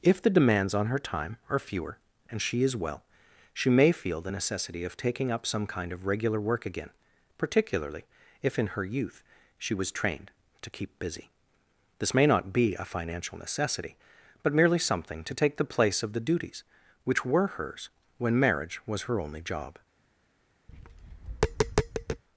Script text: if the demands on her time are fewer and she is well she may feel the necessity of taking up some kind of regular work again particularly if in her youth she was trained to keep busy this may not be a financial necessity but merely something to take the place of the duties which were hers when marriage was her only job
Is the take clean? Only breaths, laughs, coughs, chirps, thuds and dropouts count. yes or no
no